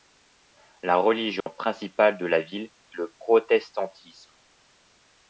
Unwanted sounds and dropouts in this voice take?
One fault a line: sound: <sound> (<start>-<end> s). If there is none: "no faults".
sound: dropout (1.4-1.5 s)